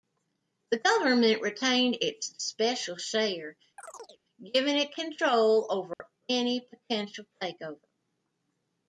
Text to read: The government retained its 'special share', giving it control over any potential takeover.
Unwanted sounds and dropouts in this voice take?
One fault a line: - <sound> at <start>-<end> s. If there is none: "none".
- chirp at 3.8-4.2 s
- dropout at 5.9-6.0 s